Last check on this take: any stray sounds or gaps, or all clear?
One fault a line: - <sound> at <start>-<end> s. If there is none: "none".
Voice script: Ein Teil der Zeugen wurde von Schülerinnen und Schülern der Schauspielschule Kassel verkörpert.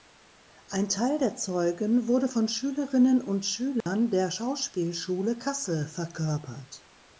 - dropout at 3.8-3.9 s